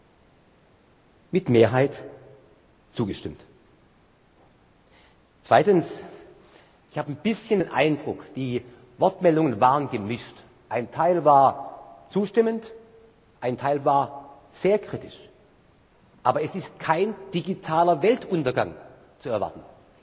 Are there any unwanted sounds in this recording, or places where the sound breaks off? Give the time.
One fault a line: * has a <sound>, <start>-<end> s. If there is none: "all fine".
all fine